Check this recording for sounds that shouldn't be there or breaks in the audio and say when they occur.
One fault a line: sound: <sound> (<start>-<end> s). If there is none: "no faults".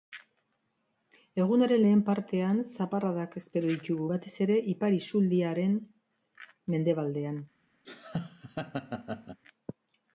sound: laugh (7.8-9.4 s)